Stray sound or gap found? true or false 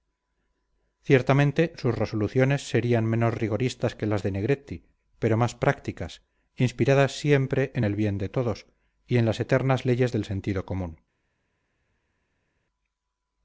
false